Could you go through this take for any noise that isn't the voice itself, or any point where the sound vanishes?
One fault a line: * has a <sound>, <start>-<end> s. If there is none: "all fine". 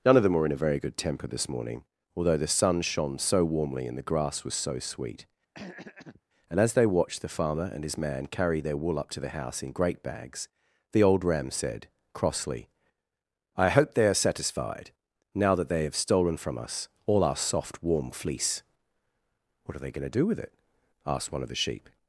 * has a throat clearing, 5.5-6.2 s